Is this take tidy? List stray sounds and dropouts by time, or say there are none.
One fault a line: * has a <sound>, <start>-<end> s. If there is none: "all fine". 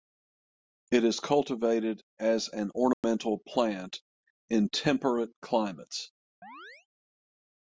* has a dropout, 2.9-3.0 s
* has a chirp, 6.4-6.9 s